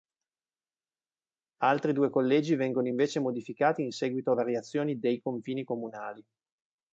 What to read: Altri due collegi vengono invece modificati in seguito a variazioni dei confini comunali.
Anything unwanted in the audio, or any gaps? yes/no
no